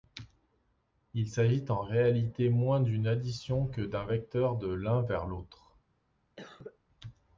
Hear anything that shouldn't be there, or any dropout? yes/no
yes